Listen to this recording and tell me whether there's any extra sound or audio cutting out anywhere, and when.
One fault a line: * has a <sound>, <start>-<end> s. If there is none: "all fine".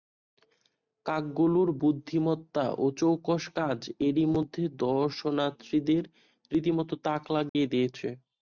* has a dropout, 7.5-7.6 s